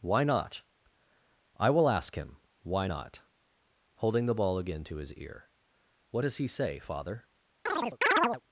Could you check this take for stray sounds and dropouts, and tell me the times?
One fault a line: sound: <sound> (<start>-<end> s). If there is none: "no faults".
sound: chirp (7.7-8.4 s)